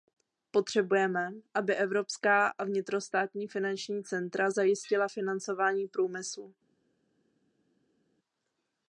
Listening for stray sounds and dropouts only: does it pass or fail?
pass